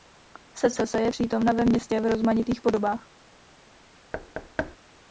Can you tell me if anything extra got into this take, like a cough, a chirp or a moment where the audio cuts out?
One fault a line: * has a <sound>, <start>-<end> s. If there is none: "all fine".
* has a thud, 4.1-4.8 s